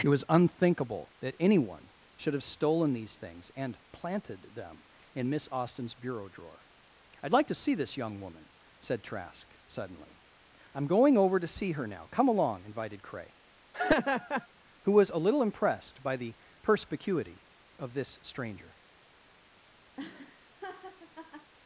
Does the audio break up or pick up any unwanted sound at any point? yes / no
yes